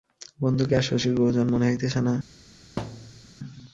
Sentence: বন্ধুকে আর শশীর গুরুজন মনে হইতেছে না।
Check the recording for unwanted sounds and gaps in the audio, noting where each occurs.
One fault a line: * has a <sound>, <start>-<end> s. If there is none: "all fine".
* has a thud, 2.8-3.3 s